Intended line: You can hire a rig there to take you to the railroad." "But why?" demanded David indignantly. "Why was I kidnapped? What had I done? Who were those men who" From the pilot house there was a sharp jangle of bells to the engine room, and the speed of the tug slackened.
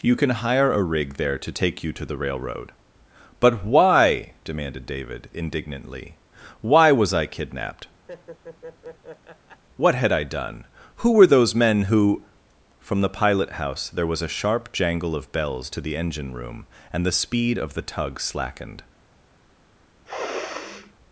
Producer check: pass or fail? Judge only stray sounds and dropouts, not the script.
fail